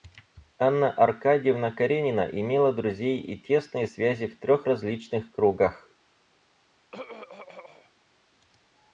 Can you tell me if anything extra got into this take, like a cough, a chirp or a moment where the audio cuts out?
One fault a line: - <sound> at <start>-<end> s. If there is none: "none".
- throat clearing at 6.9-7.9 s